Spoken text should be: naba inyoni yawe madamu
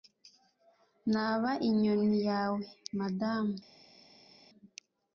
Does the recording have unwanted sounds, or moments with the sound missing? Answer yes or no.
no